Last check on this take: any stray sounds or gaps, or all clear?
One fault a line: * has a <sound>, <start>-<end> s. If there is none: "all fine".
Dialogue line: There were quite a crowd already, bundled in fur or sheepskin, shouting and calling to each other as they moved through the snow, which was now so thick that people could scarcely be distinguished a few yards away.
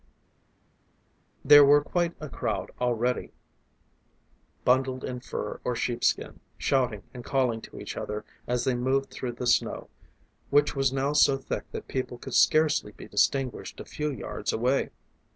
all fine